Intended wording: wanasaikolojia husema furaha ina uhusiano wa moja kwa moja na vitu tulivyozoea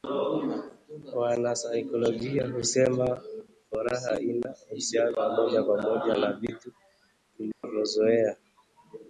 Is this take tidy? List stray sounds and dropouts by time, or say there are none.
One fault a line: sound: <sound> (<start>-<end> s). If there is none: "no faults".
sound: dropout (7.5-7.6 s)